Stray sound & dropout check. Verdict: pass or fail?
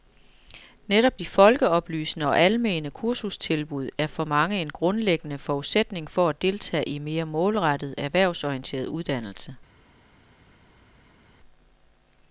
pass